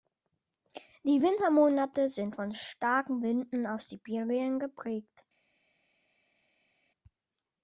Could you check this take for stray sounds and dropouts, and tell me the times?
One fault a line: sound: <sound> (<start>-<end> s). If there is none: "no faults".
no faults